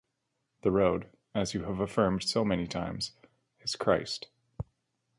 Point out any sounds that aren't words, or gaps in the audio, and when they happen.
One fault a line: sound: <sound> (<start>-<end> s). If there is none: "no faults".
no faults